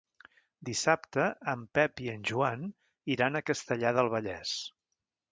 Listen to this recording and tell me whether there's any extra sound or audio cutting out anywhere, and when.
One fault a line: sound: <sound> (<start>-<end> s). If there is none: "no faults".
no faults